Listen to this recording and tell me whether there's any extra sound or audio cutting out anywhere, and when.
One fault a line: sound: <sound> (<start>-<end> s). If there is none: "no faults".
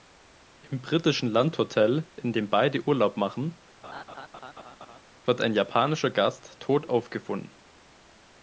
sound: laugh (3.8-5.0 s)